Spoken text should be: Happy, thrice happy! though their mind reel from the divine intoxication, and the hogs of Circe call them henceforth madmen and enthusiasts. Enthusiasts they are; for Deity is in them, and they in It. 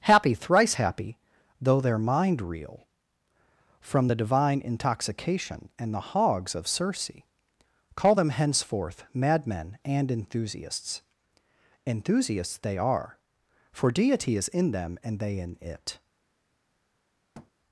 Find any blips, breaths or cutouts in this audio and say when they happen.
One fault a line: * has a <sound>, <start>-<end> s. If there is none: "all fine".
* has a thud, 17.3-17.5 s